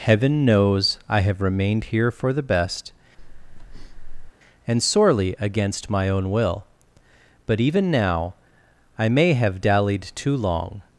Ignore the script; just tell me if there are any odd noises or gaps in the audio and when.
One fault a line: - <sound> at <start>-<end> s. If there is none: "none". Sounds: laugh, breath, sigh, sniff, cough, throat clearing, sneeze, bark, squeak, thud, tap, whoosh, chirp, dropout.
- breath at 3.2-4.3 s